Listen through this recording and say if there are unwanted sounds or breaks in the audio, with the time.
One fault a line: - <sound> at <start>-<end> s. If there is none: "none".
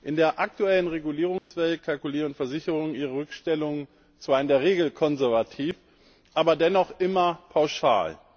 - dropout at 1.4-1.5 s